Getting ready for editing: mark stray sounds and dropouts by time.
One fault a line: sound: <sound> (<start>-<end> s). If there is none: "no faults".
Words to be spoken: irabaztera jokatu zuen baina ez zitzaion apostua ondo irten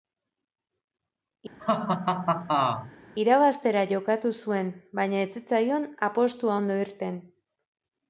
sound: laugh (1.6-2.9 s)